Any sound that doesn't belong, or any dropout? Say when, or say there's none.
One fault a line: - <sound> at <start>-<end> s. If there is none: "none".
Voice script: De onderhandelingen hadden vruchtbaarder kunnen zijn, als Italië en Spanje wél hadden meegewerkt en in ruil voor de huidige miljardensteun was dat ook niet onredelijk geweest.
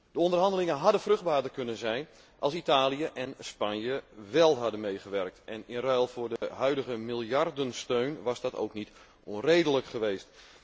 - dropout at 6.4-6.4 s